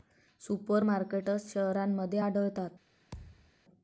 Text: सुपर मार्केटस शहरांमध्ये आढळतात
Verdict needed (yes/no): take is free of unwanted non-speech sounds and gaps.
no